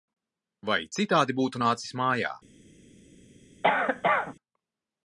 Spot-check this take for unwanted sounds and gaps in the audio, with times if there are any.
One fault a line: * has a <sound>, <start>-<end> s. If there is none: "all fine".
* has a cough, 3.6-4.3 s